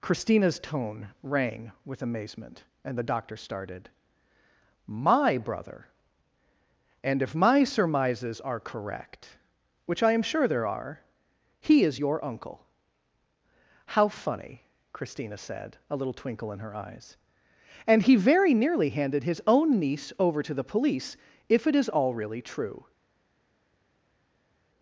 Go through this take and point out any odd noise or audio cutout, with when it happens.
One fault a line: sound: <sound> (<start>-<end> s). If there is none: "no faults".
no faults